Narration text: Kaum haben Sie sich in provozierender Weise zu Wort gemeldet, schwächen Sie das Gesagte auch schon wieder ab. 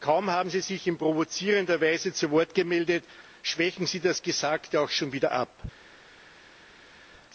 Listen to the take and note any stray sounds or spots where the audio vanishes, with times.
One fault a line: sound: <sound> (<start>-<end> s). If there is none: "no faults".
no faults